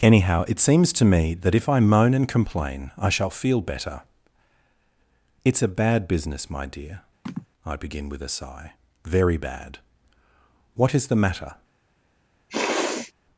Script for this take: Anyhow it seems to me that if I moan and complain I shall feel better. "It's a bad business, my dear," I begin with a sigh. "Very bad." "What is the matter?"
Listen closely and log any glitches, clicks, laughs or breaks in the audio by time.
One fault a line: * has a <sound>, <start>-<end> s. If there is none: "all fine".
* has a sigh, 7.3-7.5 s
* has a sniff, 12.5-13.1 s